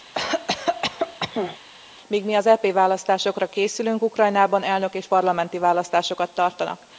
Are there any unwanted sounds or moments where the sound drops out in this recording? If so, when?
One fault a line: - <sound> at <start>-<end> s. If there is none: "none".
- cough at 0.1-1.6 s